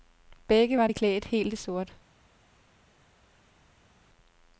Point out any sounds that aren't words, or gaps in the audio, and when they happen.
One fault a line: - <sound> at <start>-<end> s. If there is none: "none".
none